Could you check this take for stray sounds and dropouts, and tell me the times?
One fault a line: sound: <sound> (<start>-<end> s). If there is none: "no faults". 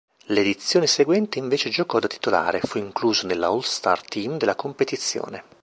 no faults